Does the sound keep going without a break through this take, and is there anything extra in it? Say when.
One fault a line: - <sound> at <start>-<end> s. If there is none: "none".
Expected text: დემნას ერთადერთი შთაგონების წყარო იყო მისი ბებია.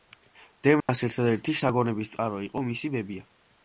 - dropout at 0.8-0.9 s